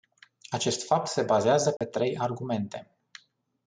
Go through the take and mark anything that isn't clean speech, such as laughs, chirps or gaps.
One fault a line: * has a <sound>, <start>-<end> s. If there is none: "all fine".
* has a dropout, 1.8-1.8 s